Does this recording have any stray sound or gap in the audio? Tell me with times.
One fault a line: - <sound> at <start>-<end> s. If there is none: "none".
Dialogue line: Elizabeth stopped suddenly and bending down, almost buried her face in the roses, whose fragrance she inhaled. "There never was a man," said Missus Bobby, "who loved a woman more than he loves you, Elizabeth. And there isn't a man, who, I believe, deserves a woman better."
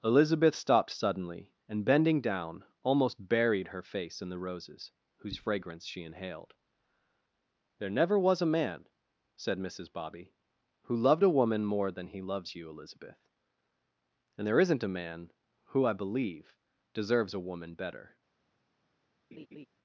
- laugh at 19.3-19.7 s